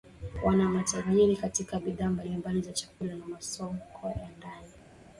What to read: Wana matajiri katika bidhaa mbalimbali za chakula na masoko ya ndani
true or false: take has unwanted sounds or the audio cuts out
false